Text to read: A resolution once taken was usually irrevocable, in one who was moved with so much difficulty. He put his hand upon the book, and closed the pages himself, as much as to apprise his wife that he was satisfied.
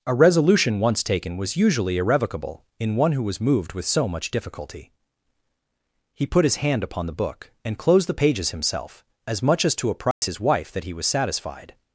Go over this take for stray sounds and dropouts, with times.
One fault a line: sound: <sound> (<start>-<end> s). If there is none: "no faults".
sound: dropout (10.1-10.2 s)